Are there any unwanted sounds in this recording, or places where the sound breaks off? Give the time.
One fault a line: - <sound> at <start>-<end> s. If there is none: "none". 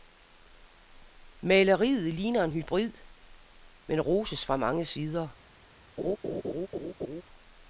- laugh at 6.0-7.2 s